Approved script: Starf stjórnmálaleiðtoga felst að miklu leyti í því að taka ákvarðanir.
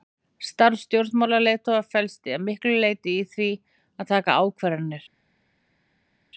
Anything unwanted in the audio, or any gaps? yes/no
no